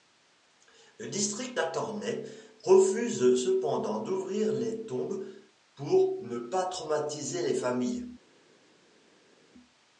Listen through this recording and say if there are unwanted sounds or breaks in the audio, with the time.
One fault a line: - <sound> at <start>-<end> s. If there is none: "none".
none